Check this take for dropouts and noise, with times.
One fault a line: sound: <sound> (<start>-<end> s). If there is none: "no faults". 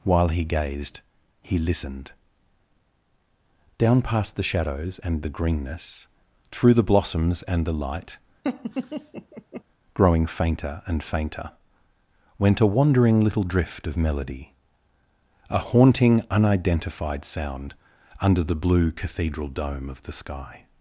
sound: laugh (8.4-9.6 s)